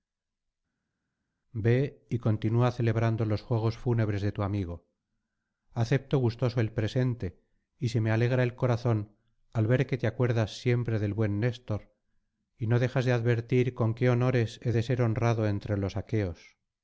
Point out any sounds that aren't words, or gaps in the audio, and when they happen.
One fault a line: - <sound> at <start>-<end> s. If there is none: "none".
none